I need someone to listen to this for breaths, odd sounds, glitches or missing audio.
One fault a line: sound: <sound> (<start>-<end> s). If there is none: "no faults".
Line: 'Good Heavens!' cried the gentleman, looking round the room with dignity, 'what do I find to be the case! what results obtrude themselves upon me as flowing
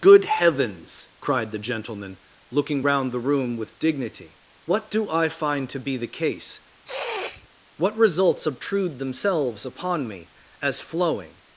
sound: sniff (6.9-7.5 s)